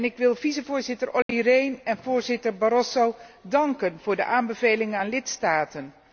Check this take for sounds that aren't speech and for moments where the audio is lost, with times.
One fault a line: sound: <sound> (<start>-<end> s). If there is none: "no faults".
sound: dropout (1.2-1.3 s)